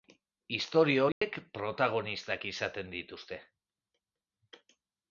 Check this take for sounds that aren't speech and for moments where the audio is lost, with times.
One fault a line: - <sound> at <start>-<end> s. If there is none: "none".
- dropout at 1.1-1.2 s